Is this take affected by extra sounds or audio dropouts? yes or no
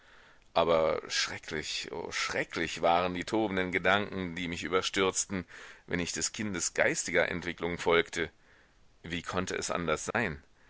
yes